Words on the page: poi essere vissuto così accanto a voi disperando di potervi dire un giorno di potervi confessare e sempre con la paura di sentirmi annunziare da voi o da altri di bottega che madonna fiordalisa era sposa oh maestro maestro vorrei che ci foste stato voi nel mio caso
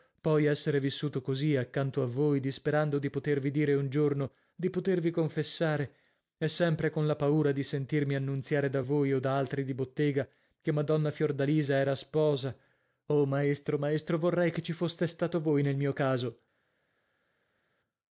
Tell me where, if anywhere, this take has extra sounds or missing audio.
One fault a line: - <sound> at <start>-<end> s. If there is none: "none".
none